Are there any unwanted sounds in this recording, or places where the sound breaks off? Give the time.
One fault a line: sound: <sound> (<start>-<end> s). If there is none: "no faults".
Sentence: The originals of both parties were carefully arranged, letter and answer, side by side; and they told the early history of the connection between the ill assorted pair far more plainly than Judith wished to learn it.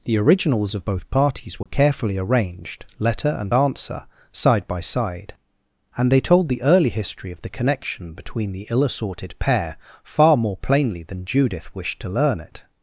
sound: dropout (1.6-1.7 s)